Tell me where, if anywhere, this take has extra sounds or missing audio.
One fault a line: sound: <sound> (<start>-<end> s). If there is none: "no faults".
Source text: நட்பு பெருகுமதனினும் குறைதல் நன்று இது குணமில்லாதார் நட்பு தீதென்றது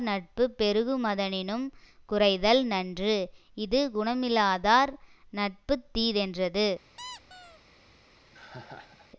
sound: squeak (7.0-7.6 s)
sound: laugh (8.3-9.1 s)